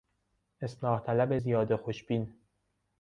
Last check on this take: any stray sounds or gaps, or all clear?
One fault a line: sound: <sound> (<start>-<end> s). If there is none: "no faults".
no faults